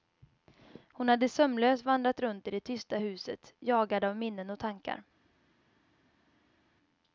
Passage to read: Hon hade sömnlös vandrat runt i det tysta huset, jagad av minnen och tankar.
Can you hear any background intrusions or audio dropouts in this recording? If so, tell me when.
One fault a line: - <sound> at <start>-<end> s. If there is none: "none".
none